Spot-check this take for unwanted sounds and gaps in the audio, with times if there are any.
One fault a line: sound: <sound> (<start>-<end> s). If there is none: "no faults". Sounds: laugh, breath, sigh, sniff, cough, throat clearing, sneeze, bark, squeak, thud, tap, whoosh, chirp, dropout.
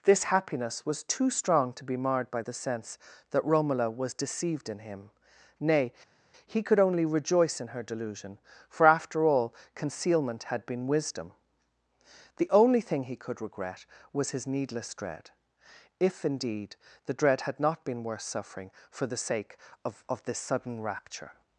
no faults